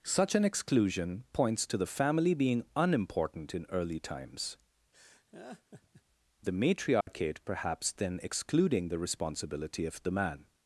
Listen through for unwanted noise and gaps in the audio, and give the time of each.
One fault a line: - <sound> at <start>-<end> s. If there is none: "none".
- laugh at 4.9-6.0 s
- dropout at 7.0-7.1 s